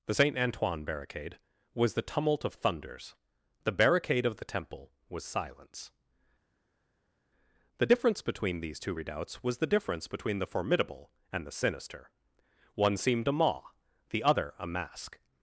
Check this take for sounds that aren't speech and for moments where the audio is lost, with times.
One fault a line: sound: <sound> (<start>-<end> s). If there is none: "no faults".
no faults